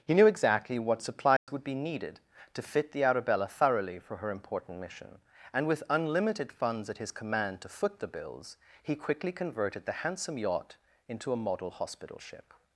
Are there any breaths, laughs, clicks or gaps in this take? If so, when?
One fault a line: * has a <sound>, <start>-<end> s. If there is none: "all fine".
* has a dropout, 1.4-1.5 s